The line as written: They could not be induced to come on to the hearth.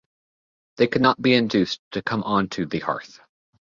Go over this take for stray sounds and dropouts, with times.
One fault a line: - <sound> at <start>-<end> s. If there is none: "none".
none